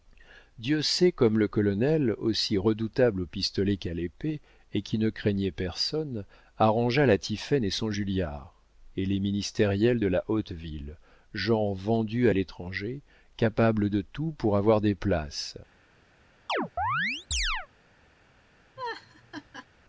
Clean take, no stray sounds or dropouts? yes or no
no